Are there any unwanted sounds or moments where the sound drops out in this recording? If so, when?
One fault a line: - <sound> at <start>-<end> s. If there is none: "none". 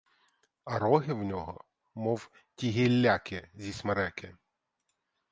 none